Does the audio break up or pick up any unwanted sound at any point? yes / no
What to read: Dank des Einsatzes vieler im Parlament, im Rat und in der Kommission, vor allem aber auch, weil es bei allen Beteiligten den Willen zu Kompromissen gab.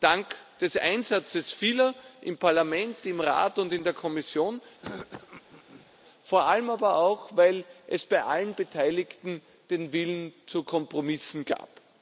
yes